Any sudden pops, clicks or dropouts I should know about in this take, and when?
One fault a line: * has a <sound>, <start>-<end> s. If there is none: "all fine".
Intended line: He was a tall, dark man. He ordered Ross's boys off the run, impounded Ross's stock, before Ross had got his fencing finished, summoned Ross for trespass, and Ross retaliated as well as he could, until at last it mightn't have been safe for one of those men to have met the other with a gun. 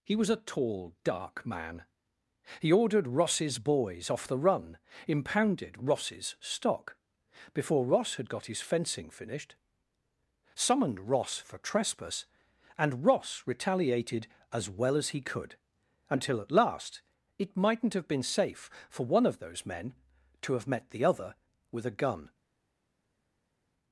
all fine